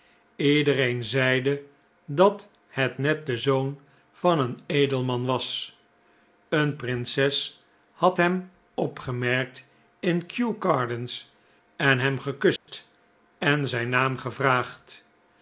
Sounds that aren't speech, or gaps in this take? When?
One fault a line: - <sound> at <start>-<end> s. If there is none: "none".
- dropout at 12.6-12.7 s